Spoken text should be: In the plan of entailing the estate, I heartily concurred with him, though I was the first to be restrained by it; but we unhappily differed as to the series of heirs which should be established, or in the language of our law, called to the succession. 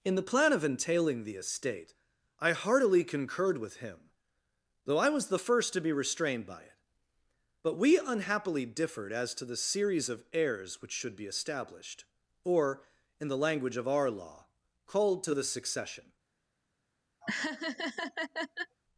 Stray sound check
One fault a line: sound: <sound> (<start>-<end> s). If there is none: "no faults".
sound: laugh (17.2-18.8 s)